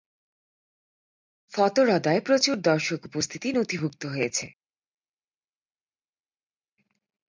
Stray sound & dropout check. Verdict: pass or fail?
pass